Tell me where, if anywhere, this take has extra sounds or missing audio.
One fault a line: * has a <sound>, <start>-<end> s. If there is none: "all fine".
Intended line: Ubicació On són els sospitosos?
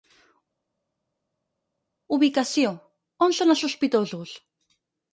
all fine